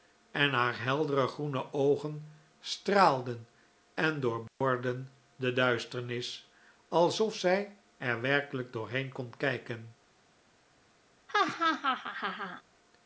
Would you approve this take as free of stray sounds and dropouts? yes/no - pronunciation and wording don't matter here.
no